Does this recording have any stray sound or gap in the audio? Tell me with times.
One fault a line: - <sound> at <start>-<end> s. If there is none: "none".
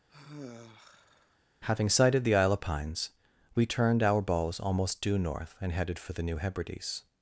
- sigh at 0.1-1.4 s